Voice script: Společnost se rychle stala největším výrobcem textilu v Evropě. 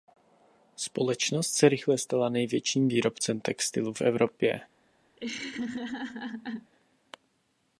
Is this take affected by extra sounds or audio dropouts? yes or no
yes